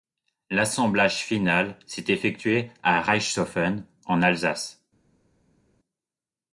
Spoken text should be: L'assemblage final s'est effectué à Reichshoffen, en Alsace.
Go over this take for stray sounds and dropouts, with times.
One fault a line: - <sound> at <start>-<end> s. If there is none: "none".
none